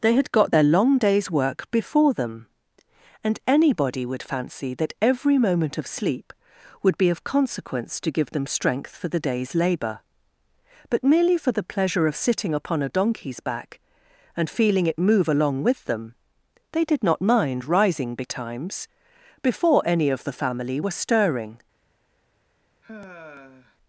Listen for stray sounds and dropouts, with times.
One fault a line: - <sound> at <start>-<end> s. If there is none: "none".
- sigh at 22.8-23.8 s